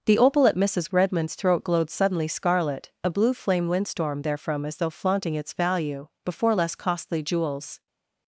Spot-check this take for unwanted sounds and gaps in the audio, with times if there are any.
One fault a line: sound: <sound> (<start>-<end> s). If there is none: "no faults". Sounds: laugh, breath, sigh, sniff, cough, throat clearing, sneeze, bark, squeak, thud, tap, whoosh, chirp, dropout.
no faults